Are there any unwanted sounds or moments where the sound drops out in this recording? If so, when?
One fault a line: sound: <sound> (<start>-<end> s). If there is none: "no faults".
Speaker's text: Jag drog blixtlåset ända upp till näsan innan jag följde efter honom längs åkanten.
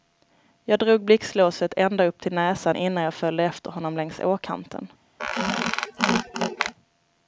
sound: squeak (5.2-6.7 s)